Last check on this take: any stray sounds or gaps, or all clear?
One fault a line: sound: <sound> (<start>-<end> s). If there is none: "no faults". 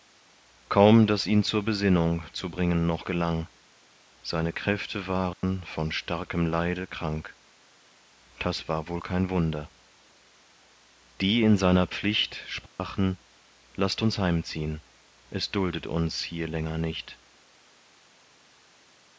sound: dropout (5.3-5.4 s)
sound: dropout (12.7-12.8 s)